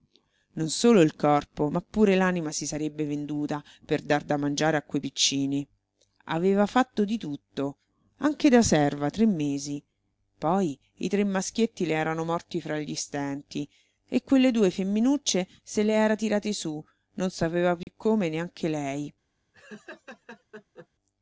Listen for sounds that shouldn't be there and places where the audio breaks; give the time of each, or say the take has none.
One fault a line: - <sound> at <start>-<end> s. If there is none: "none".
- dropout at 17.8-17.9 s
- laugh at 19.5-20.9 s